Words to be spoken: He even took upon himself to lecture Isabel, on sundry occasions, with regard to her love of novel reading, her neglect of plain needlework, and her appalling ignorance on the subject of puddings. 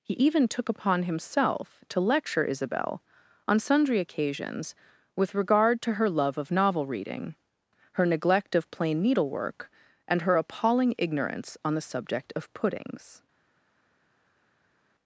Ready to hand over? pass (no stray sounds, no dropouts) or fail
pass